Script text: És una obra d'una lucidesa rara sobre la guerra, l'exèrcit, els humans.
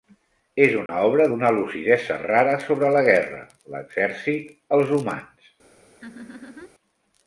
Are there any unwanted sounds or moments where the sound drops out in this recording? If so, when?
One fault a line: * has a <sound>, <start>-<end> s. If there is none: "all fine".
* has a dropout, 0.9-0.9 s
* has a laugh, 6.0-6.7 s